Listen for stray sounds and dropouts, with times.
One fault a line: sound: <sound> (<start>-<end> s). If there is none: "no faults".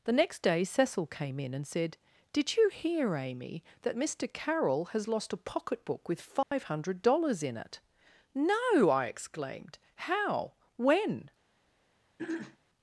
sound: dropout (6.4-6.5 s)
sound: throat clearing (12.2-12.6 s)